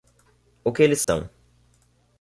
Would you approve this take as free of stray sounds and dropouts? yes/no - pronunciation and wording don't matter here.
no